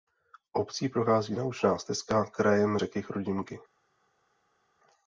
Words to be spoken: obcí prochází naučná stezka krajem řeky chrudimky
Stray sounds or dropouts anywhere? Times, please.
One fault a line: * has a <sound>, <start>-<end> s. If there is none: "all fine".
all fine